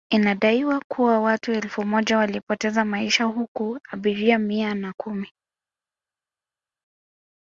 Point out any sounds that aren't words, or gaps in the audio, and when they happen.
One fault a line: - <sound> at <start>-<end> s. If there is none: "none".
none